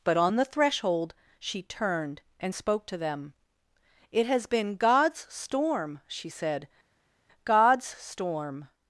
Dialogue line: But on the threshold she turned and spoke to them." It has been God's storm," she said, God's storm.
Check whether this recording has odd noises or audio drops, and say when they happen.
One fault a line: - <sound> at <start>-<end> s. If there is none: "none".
none